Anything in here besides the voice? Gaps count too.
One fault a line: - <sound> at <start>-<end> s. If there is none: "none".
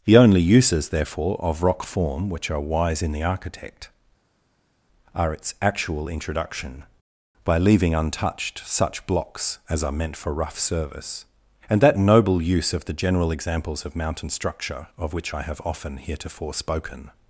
none